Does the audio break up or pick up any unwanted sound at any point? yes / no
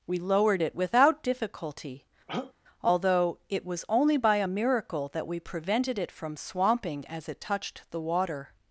yes